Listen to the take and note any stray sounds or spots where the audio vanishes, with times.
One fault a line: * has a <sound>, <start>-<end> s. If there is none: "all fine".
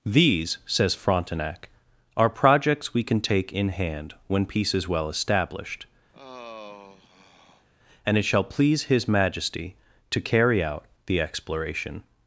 * has a sigh, 6.1-7.7 s